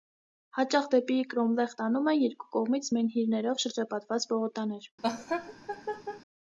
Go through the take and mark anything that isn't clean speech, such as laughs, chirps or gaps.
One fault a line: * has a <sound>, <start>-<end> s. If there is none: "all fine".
* has a laugh, 5.0-6.2 s